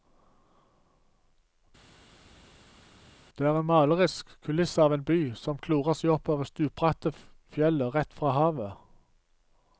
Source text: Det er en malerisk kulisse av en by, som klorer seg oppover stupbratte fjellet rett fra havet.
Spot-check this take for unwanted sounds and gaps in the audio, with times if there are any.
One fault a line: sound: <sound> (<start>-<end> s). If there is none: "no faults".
no faults